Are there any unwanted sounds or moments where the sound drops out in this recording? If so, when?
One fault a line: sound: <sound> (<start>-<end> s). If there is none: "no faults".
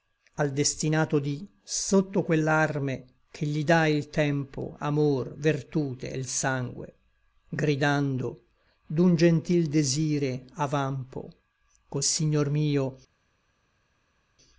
no faults